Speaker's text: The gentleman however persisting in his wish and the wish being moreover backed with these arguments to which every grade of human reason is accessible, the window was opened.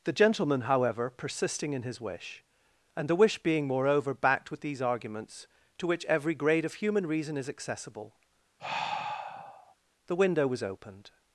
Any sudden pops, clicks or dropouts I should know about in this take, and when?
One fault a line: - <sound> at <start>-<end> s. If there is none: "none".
- sigh at 8.6-9.7 s